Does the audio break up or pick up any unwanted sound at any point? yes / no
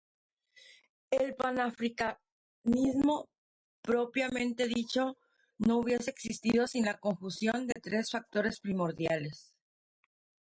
yes